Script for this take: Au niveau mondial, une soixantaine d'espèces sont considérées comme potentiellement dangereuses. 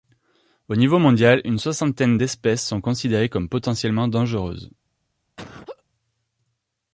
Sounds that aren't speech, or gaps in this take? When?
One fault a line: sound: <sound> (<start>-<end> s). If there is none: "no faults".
sound: laugh (5.4-5.8 s)